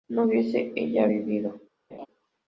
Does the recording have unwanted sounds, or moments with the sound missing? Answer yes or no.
yes